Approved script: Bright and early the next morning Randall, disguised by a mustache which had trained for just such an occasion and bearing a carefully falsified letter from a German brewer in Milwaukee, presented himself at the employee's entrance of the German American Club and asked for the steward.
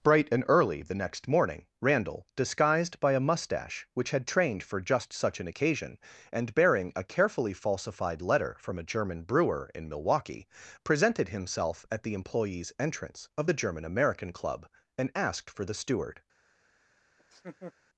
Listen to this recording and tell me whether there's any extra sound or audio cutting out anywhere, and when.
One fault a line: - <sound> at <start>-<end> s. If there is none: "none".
- laugh at 17.2-17.7 s